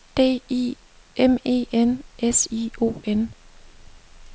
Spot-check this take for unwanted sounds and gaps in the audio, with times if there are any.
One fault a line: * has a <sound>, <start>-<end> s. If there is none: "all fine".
all fine